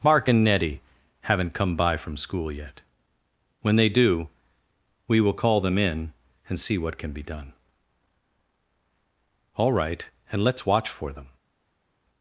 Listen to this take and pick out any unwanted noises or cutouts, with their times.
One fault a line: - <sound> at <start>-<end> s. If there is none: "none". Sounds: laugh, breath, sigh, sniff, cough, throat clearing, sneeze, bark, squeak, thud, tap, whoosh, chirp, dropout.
none